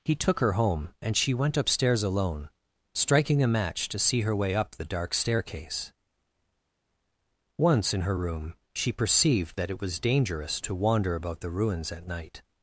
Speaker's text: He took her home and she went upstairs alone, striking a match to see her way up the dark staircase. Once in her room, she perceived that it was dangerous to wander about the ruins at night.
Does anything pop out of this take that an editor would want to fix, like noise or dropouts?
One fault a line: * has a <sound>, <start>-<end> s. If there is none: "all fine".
all fine